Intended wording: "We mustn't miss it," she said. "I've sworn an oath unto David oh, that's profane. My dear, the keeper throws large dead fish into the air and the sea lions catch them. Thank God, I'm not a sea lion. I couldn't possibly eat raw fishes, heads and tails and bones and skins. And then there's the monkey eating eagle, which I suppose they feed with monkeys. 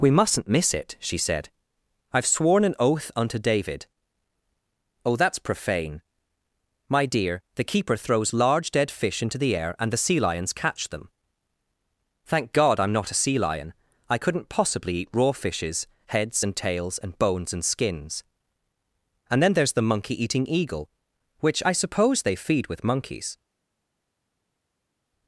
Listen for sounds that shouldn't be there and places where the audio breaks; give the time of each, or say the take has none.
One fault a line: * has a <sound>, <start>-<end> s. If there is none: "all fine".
all fine